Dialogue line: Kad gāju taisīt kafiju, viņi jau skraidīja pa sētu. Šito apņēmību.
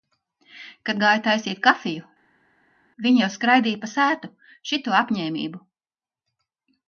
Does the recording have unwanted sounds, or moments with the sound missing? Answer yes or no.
no